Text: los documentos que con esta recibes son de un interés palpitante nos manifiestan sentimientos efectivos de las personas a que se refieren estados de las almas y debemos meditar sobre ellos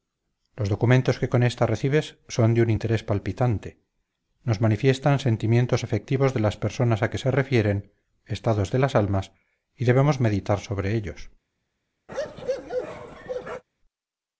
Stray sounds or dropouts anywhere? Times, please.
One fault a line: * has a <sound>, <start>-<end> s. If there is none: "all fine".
* has a bark, 12.1-13.6 s